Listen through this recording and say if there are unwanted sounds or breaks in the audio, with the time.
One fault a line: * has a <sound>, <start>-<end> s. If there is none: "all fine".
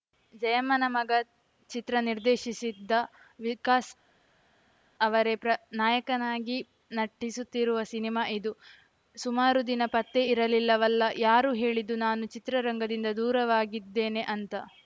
all fine